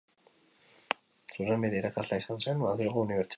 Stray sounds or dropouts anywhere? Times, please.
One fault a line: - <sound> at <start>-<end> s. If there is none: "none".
none